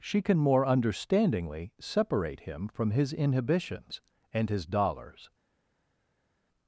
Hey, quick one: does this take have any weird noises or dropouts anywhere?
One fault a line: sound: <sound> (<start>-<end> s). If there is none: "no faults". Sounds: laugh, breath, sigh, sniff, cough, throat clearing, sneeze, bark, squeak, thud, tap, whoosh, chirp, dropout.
no faults